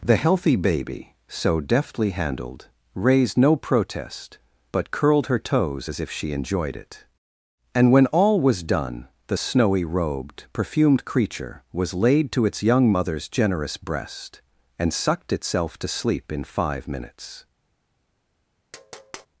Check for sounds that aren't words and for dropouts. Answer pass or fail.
fail